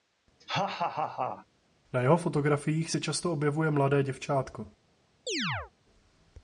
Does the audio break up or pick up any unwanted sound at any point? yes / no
yes